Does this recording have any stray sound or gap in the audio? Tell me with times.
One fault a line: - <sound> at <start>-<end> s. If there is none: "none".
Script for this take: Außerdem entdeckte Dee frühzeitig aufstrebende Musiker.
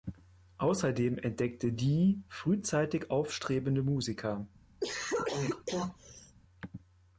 - cough at 4.8-6.4 s